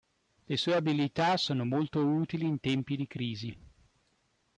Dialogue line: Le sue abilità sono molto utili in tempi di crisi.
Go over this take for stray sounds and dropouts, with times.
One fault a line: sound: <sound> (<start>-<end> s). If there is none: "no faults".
no faults